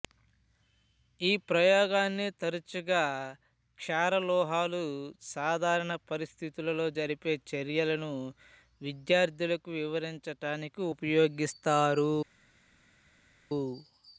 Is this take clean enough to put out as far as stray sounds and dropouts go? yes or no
yes